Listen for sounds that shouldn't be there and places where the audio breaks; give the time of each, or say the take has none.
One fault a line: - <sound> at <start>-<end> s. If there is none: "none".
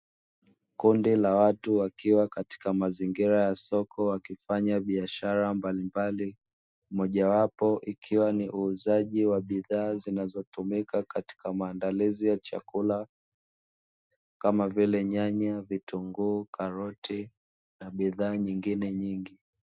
none